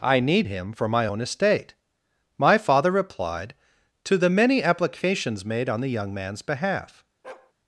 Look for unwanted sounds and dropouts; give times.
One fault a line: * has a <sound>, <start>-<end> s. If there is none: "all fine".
* has a bark, 7.2-7.5 s